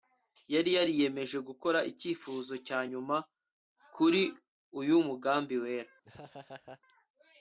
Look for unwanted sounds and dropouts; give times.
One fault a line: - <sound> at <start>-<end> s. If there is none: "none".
- laugh at 6.0-6.8 s